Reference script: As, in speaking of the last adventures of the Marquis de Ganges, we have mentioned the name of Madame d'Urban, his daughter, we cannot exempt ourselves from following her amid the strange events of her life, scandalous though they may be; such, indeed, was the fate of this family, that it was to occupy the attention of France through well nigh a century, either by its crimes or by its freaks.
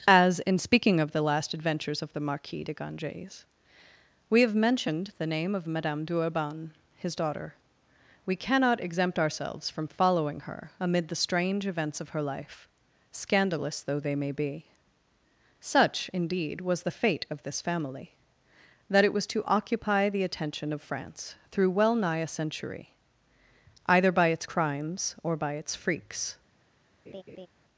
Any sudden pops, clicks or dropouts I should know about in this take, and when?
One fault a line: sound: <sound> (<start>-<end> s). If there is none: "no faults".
sound: laugh (27.1-27.5 s)